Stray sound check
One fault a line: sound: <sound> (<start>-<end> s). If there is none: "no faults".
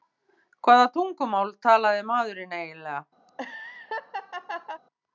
sound: laugh (3.3-4.8 s)